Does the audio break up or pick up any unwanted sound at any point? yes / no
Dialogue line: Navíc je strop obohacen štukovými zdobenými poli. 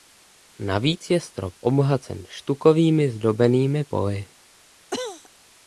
yes